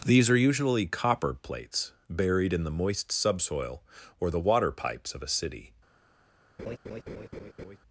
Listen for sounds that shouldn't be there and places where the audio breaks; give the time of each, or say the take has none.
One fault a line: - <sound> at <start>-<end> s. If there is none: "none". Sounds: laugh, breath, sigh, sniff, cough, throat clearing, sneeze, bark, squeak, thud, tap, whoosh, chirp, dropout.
- laugh at 6.6-7.8 s